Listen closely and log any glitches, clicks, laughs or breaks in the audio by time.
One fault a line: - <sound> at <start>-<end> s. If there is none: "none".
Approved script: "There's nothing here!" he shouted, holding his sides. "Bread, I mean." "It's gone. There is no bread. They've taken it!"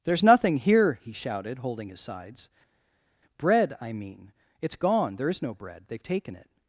none